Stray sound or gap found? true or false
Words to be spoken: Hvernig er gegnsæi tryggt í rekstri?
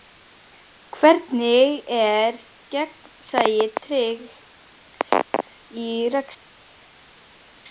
false